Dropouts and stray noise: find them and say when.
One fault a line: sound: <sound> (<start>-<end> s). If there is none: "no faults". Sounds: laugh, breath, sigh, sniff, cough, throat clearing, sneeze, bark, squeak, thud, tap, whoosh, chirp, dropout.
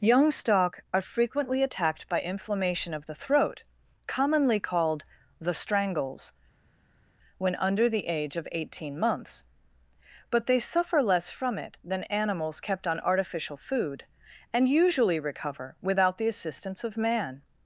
no faults